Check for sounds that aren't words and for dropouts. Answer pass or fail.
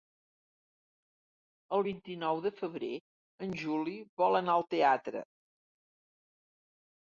pass